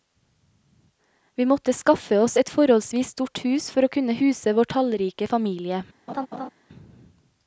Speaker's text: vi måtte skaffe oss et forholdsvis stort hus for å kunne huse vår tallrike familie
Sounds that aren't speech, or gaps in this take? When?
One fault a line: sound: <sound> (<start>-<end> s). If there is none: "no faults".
sound: laugh (6.1-6.5 s)